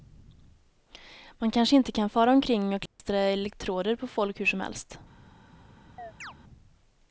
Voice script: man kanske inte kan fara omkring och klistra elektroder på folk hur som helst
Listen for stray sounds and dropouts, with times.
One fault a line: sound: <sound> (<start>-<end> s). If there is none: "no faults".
sound: dropout (2.9-3.0 s)
sound: chirp (6.0-6.3 s)